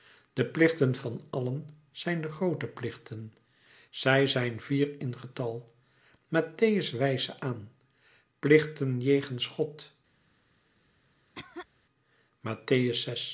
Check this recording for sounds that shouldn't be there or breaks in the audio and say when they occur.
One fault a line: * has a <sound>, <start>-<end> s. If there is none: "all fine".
* has a cough, 11.3-11.7 s